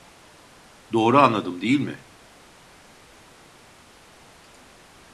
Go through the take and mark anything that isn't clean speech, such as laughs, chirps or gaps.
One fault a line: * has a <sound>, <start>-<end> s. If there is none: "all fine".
all fine